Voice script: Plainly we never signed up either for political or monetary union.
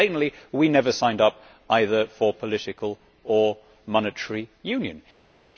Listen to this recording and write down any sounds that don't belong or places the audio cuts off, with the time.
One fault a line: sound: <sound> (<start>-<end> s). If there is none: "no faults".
no faults